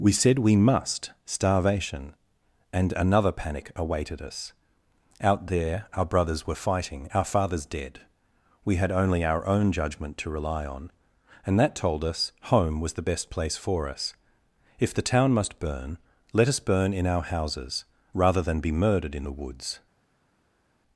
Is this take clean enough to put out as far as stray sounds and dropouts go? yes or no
yes